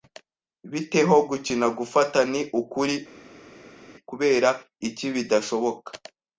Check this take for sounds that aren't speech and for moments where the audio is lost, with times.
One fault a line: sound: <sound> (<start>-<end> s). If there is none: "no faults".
no faults